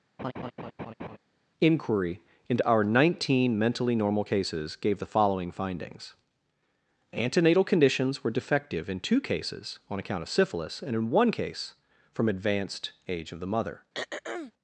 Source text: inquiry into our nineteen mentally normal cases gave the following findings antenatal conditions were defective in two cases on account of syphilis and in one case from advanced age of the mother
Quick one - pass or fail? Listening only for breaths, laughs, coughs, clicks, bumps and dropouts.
fail